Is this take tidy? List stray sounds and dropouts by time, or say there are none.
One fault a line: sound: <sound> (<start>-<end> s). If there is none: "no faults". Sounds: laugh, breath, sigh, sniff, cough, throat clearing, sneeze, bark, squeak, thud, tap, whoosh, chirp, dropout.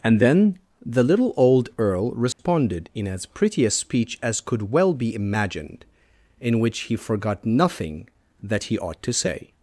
sound: dropout (2.3-2.4 s)